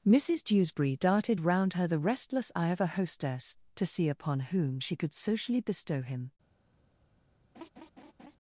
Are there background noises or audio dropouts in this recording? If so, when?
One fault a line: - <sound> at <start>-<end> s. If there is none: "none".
- laugh at 7.5-8.4 s